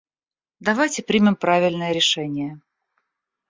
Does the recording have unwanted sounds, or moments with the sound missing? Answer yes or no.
no